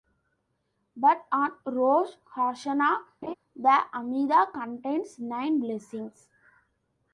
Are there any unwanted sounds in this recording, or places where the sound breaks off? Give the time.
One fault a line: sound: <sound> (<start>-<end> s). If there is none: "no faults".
sound: laugh (3.2-3.3 s)